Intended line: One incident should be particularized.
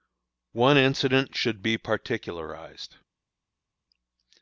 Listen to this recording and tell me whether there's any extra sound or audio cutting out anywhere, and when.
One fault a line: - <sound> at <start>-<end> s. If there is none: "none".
none